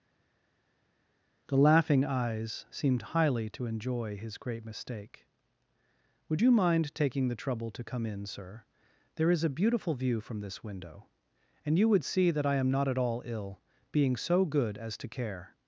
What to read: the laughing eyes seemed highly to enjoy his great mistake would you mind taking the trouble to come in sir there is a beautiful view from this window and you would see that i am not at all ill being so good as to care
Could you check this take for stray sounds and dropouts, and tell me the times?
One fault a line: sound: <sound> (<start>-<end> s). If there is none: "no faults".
no faults